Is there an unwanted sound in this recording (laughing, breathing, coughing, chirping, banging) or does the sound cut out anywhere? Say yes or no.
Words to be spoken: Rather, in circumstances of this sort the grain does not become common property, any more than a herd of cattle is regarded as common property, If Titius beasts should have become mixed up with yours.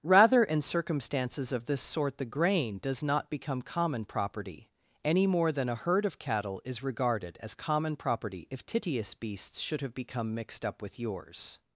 no